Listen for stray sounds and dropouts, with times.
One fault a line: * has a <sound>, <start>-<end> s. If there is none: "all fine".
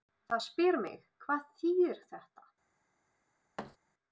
* has a thud, 3.6-3.8 s